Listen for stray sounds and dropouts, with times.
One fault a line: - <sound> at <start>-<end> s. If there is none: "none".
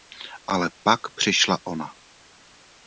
none